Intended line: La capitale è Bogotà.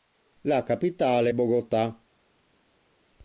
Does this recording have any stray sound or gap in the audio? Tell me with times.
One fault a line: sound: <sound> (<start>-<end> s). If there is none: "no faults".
no faults